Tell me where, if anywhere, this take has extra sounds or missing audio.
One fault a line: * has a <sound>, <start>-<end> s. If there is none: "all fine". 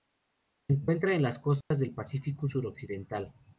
* has a dropout, 1.6-1.7 s